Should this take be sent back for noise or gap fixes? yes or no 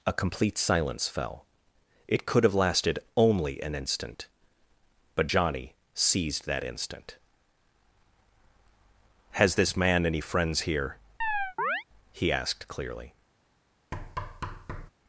yes